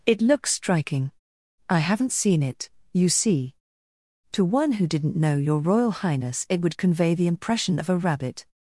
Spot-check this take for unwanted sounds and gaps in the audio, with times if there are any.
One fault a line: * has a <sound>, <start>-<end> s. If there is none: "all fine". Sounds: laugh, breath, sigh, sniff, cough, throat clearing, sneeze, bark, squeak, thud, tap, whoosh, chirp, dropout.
all fine